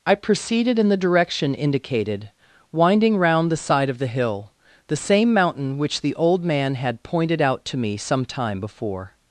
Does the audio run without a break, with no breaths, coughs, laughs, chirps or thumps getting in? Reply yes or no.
yes